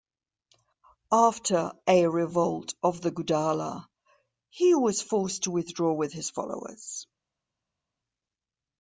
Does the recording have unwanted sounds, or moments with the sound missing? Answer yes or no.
no